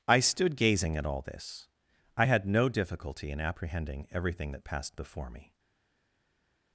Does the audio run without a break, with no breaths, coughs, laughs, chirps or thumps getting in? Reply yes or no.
yes